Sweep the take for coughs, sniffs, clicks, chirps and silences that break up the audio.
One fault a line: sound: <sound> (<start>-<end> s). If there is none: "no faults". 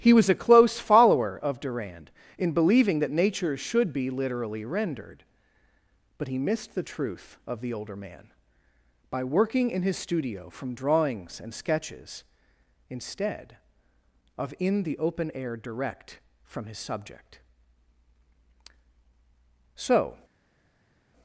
no faults